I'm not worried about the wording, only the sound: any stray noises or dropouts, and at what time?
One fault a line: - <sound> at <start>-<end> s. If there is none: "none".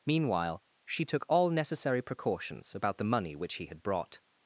none